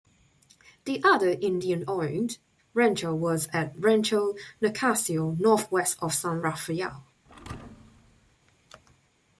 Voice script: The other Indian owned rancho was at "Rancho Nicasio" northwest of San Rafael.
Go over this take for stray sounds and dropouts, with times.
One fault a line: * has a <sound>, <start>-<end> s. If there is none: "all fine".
* has a thud, 7.3-8.4 s